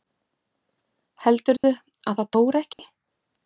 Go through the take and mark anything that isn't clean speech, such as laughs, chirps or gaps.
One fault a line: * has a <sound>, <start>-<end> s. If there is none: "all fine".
* has a dropout, 1.6-1.6 s
* has a dropout, 2.7-2.8 s